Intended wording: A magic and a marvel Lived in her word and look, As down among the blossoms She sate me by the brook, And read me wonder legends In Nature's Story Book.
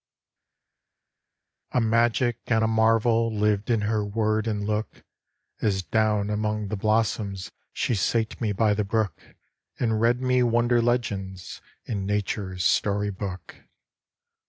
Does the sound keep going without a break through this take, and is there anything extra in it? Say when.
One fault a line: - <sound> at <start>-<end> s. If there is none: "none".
none